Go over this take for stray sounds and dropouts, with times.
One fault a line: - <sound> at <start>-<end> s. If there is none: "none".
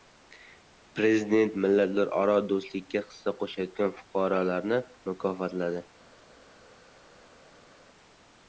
none